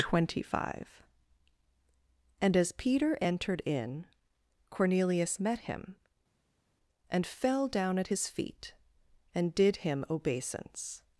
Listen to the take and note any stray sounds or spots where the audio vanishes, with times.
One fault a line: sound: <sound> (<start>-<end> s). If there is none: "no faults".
no faults